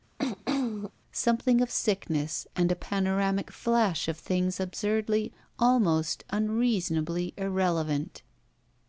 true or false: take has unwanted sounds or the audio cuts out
true